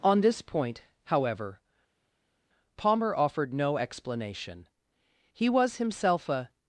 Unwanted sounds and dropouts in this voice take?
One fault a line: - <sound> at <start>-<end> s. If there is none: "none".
none